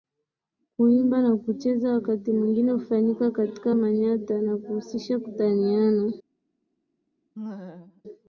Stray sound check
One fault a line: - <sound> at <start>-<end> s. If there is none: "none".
- laugh at 7.3-8.0 s